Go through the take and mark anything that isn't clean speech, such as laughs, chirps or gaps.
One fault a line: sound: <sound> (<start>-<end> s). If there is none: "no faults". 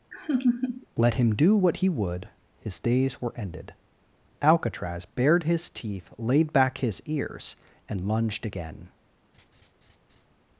sound: laugh (0.1-0.9 s)
sound: laugh (9.3-10.3 s)